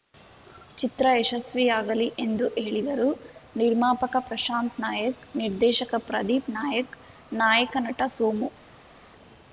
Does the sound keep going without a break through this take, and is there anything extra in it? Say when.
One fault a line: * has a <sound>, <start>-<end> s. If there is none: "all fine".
all fine